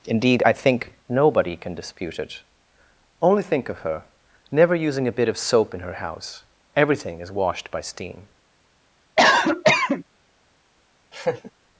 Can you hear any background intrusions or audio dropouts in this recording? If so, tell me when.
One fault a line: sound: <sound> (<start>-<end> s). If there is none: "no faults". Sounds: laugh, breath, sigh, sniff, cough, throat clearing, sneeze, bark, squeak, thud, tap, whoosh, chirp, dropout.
sound: cough (9.2-10.0 s)
sound: laugh (11.1-11.5 s)